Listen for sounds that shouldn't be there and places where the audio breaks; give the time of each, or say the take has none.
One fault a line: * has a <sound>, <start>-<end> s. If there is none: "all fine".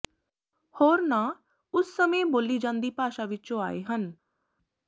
all fine